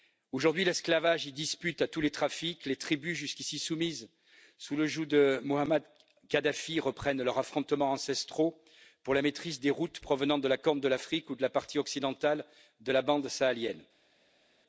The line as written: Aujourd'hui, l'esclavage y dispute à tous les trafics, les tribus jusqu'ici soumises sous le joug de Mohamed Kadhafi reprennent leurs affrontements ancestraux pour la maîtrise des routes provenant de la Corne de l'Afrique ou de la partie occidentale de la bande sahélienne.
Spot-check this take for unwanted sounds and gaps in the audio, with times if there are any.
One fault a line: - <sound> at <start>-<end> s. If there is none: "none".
none